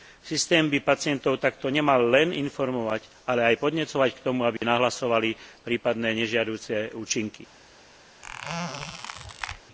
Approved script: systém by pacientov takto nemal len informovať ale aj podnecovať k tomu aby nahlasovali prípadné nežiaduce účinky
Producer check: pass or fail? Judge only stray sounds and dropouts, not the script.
fail